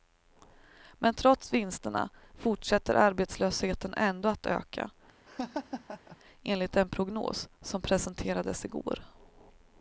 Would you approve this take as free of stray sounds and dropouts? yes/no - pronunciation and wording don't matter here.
no